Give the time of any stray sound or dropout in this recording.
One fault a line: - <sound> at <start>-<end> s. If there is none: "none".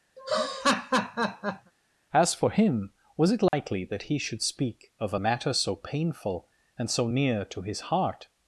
- laugh at 0.2-1.7 s
- dropout at 3.5-3.5 s